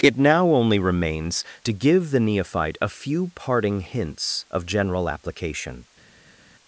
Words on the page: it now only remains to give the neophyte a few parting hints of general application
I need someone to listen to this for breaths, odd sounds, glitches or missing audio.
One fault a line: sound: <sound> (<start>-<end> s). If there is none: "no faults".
no faults